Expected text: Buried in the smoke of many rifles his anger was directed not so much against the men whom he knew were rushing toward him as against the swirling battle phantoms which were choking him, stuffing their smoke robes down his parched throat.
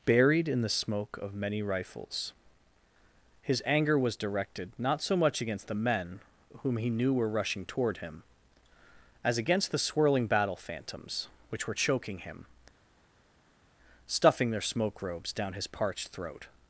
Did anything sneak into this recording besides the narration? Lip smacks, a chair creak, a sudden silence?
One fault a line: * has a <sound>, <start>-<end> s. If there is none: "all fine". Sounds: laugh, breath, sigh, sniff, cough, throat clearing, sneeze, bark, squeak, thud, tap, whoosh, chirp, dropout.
all fine